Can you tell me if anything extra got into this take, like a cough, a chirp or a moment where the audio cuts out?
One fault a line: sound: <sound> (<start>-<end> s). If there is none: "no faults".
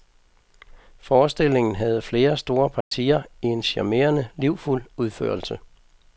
sound: dropout (2.8-2.9 s)